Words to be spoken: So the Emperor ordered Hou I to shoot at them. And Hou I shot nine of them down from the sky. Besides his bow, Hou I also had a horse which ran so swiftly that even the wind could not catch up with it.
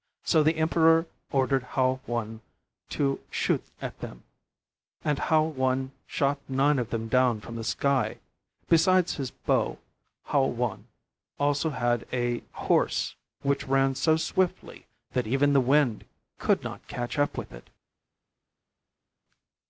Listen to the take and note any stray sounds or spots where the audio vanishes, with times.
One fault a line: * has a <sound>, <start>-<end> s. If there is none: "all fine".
all fine